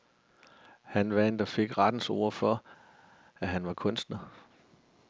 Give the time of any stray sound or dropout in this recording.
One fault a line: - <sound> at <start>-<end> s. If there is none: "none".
none